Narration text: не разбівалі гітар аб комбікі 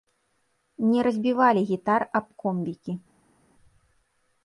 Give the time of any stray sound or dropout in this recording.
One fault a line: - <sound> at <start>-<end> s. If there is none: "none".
none